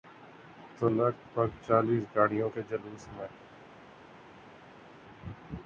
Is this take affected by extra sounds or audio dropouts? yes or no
no